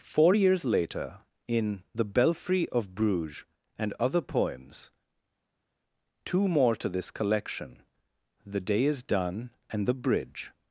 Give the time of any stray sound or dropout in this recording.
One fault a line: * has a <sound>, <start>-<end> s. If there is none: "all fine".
all fine